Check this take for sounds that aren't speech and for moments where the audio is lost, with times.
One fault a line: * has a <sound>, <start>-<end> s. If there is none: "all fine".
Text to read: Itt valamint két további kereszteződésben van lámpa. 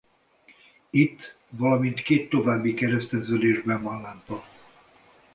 all fine